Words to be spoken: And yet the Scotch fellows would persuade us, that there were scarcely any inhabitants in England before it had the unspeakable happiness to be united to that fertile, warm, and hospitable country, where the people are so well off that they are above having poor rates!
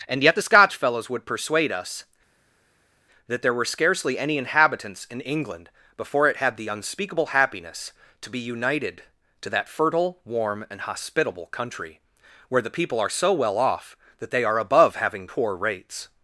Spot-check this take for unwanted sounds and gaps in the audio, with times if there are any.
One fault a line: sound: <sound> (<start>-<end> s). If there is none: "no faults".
no faults